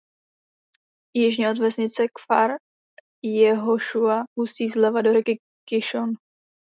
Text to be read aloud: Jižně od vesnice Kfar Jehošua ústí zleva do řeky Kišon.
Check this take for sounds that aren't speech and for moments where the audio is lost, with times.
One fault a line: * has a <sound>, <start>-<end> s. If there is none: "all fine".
all fine